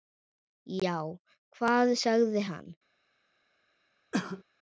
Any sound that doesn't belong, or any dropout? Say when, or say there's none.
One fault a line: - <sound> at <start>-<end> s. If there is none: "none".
- cough at 4.1-4.4 s